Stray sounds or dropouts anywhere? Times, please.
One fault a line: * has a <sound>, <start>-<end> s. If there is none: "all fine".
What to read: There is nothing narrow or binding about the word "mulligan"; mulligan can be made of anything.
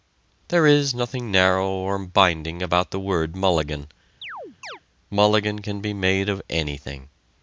* has a chirp, 4.2-4.8 s